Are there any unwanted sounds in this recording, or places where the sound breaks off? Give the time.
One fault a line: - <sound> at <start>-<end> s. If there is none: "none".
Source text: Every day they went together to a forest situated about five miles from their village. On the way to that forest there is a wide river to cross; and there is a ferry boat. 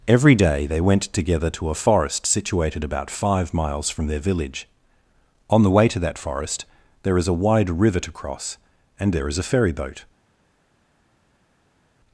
none